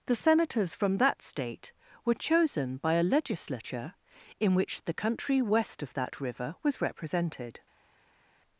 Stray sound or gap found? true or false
false